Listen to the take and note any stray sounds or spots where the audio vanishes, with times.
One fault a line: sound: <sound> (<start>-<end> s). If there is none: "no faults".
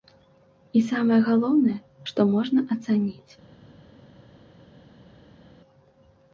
no faults